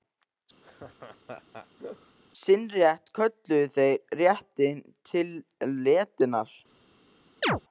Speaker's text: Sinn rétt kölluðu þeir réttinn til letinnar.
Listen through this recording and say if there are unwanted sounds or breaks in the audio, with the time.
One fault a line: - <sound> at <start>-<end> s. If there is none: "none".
- laugh at 0.6-2.2 s
- chirp at 7.4-7.6 s